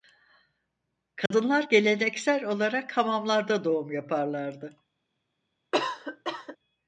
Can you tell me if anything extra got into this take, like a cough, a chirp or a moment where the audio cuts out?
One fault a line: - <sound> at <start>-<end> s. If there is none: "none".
- dropout at 1.3-1.3 s
- cough at 5.7-6.6 s